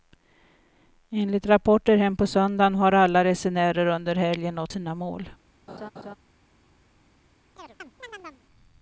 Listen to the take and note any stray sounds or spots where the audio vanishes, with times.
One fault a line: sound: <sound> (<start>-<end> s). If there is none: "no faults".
sound: laugh (5.7-6.2 s)
sound: chirp (7.6-8.4 s)